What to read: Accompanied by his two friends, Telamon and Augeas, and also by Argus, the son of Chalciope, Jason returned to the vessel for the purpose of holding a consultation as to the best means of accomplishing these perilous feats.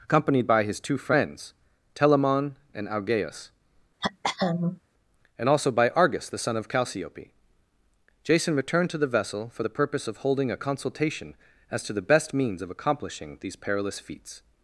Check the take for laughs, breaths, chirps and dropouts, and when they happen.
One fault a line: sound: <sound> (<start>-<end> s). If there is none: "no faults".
sound: throat clearing (4.0-4.8 s)